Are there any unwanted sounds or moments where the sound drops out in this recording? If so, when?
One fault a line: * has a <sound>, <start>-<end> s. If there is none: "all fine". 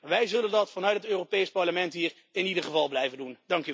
all fine